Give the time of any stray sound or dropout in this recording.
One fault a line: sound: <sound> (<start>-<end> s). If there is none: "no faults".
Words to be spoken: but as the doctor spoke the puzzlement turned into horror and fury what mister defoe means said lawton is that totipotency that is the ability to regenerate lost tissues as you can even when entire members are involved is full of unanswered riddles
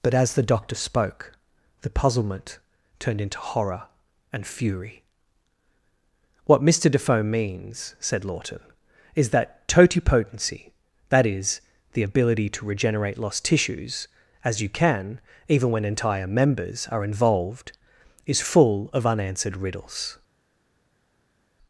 no faults